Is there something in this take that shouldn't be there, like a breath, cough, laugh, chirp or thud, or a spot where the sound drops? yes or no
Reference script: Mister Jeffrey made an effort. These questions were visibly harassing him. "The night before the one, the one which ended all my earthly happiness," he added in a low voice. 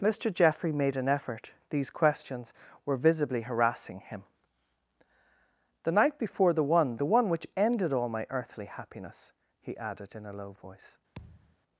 yes